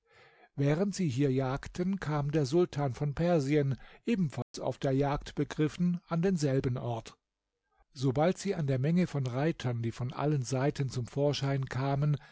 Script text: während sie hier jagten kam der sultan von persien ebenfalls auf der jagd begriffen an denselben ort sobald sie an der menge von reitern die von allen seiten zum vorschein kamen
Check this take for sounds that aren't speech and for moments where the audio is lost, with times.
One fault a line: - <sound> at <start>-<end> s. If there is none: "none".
- dropout at 4.4-4.5 s